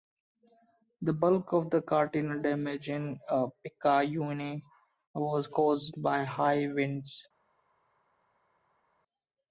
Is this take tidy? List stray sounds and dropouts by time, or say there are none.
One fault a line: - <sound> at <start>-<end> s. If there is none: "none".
none